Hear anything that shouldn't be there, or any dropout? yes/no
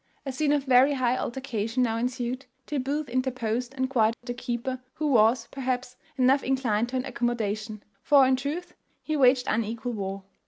yes